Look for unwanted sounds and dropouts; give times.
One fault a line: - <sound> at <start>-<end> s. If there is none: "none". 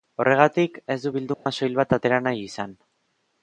- dropout at 1.3-1.5 s